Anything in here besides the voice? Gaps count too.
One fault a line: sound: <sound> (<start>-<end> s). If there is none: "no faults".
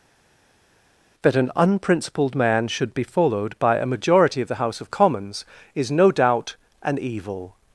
no faults